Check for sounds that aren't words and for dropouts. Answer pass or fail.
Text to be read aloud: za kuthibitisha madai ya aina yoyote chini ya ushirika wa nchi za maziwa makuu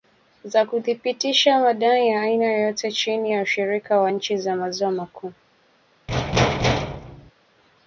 fail